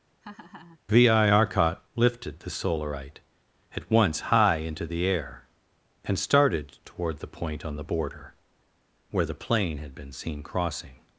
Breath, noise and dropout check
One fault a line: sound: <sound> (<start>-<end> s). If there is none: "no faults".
sound: laugh (0.2-0.8 s)